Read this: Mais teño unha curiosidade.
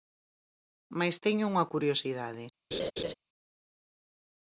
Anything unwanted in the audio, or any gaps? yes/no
yes